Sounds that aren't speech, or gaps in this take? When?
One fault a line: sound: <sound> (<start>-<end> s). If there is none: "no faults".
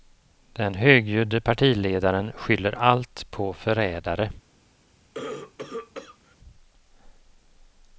sound: cough (5.1-6.4 s)